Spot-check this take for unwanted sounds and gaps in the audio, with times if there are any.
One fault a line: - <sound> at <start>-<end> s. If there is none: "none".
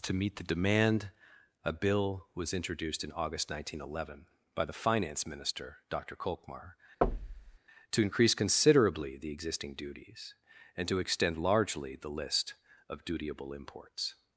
- thud at 7.0-7.6 s